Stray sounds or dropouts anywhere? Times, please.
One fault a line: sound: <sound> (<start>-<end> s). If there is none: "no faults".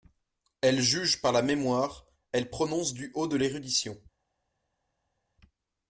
no faults